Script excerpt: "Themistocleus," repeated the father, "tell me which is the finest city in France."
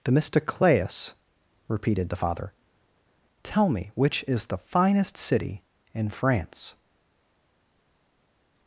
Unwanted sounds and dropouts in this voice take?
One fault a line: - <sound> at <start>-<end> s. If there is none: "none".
none